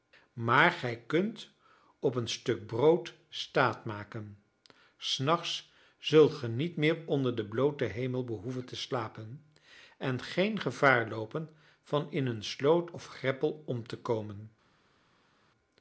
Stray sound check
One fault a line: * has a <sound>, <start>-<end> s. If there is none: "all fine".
all fine